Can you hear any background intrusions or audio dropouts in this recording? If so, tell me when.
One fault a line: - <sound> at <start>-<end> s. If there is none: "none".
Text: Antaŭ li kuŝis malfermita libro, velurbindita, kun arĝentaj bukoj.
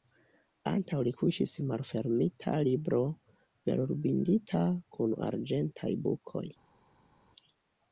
none